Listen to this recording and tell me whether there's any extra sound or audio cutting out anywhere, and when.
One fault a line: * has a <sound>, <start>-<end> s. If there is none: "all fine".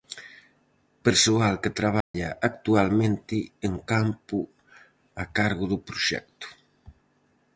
* has a dropout, 2.0-2.1 s